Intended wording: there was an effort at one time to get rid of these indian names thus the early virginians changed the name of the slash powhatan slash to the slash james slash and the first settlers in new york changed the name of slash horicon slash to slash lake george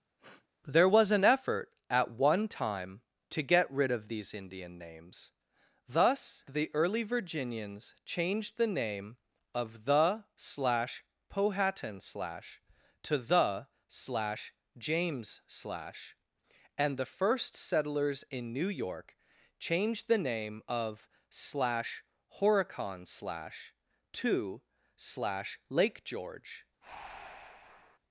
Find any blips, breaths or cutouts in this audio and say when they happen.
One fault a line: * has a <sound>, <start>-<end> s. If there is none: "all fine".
* has a sniff, 0.2-0.5 s
* has a breath, 26.8-28.0 s